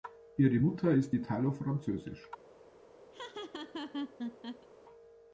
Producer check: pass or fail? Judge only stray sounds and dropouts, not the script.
fail